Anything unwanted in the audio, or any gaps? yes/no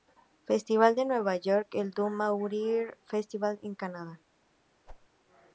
yes